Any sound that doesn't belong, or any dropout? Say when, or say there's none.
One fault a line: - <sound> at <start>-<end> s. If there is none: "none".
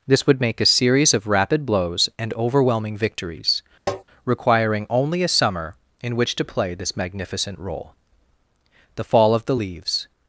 - tap at 3.9-4.0 s